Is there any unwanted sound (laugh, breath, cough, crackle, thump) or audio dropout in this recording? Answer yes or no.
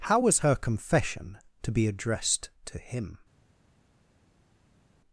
no